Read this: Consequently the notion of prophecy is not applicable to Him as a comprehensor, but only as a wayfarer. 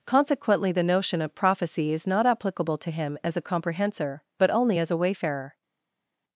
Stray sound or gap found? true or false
false